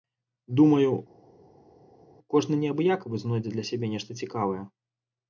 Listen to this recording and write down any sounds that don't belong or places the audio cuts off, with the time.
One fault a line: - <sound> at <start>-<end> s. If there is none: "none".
none